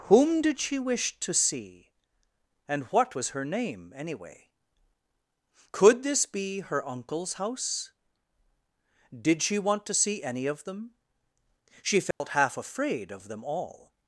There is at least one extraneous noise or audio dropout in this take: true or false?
true